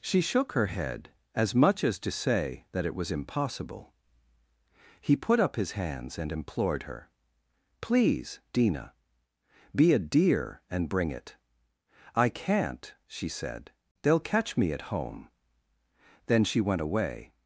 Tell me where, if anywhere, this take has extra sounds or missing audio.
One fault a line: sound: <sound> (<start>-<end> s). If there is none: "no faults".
no faults